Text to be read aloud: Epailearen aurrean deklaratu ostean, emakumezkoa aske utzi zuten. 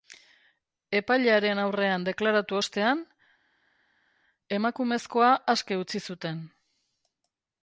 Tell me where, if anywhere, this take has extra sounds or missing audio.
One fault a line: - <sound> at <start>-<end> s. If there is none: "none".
none